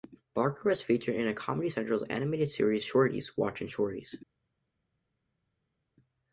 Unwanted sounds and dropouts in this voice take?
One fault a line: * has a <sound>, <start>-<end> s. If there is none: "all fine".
all fine